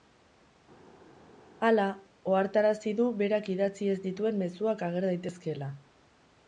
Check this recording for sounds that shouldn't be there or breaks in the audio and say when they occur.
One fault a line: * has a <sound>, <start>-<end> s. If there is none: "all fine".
all fine